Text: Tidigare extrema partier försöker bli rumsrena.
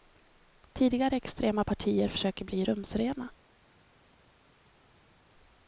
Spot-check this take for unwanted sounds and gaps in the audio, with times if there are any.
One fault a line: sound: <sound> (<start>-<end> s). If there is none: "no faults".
no faults